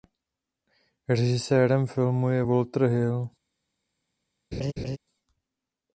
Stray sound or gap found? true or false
true